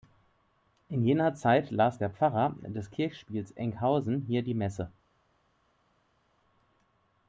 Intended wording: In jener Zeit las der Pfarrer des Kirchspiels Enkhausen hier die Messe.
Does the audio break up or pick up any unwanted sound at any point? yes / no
no